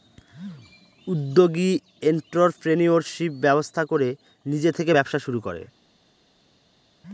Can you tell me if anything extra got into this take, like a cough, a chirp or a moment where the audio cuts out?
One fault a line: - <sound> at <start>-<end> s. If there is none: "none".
none